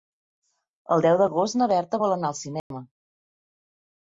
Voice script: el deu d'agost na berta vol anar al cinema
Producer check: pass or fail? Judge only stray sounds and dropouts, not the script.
fail